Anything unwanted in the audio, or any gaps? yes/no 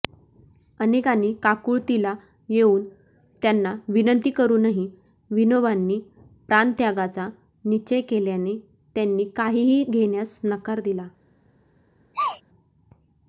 yes